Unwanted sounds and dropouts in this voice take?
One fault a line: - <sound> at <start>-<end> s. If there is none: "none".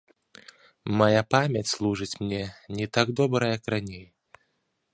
none